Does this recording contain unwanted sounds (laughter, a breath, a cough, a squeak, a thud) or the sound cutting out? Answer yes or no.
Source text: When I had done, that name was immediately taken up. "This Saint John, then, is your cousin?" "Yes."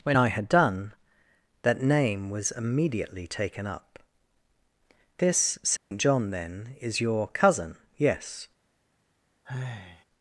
yes